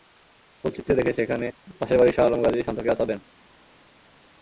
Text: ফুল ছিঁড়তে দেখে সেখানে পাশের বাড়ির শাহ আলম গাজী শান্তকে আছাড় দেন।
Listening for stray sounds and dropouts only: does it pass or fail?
pass